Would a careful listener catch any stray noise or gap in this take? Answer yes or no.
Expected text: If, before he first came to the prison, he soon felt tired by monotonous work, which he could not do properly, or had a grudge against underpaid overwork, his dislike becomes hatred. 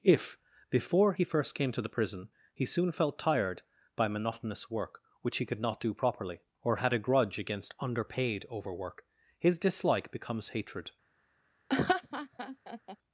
yes